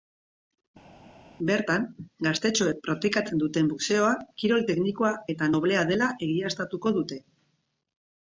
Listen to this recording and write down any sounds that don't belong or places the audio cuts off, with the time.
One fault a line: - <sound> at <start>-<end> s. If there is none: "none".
none